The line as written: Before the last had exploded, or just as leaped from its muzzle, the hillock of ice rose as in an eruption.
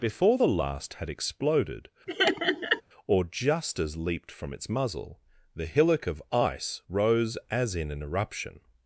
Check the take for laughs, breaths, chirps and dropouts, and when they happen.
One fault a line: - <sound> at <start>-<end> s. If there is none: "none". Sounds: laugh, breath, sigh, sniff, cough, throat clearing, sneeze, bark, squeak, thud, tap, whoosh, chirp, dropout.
- laugh at 2.1-2.8 s